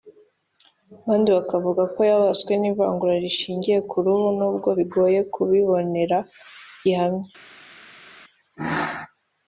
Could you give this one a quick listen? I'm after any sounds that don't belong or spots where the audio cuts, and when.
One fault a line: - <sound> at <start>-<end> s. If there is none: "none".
none